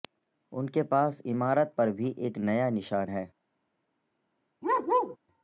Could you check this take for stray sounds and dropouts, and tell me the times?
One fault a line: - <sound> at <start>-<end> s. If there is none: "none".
- bark at 4.6-5.2 s